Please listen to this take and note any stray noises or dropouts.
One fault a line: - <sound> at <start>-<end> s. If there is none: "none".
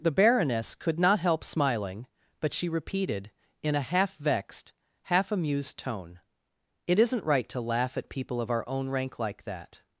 none